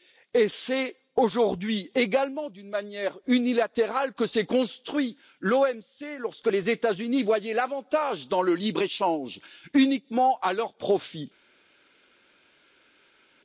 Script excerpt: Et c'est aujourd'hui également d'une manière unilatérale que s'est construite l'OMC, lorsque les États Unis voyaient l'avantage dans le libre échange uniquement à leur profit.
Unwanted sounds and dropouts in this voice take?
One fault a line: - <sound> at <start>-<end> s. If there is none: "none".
none